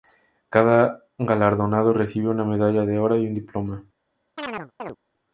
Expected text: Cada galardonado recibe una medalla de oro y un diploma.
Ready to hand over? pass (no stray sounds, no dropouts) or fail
fail